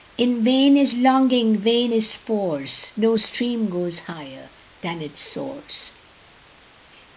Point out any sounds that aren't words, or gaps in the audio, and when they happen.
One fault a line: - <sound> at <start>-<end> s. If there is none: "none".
none